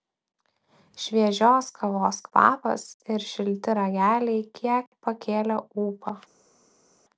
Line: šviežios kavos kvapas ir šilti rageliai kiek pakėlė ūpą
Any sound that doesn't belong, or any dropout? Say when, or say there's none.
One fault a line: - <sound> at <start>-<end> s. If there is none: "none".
none